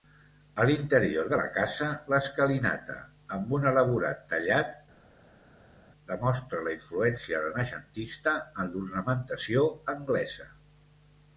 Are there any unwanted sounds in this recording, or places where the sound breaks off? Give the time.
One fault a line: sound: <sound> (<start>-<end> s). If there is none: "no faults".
no faults